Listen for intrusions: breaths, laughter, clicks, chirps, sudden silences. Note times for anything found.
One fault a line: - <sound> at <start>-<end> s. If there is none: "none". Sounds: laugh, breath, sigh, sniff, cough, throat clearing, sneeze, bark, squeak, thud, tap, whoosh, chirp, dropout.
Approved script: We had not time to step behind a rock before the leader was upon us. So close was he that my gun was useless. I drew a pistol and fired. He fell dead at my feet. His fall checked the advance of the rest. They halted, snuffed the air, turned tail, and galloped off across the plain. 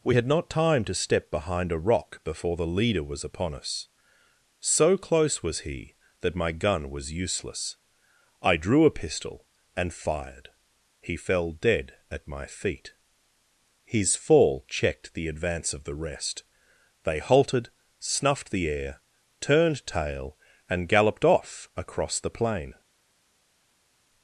none